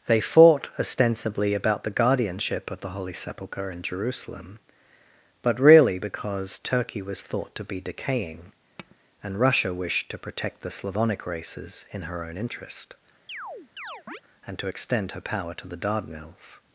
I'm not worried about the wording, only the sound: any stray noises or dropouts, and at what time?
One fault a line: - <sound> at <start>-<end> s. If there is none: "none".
- tap at 8.8-9.0 s
- chirp at 13.3-14.2 s